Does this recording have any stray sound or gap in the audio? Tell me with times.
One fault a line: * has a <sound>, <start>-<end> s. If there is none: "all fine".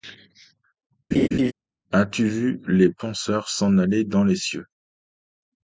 * has a laugh, 1.1-1.5 s